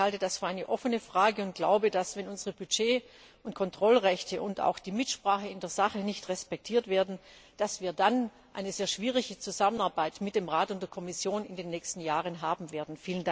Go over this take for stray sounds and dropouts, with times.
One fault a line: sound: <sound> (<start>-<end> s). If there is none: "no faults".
no faults